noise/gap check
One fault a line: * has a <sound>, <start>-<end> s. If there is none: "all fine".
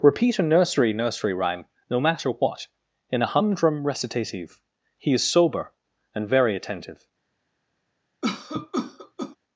* has a cough, 8.2-9.4 s